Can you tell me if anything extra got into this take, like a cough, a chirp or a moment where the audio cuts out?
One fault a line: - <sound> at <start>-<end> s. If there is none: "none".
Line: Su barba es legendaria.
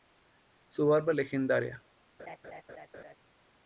- laugh at 2.2-3.2 s